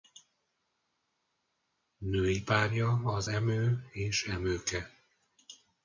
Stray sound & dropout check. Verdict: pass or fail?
pass